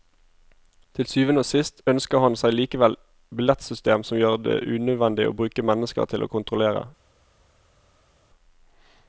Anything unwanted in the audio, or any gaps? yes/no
no